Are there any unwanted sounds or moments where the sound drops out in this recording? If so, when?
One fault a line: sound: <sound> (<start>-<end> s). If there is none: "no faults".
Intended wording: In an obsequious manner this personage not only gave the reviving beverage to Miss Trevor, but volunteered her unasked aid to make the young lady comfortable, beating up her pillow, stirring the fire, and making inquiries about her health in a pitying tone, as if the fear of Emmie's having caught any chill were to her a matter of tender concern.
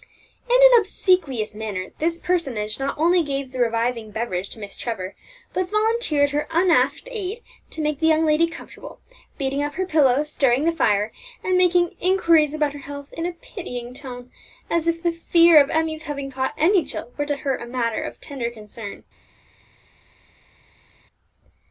no faults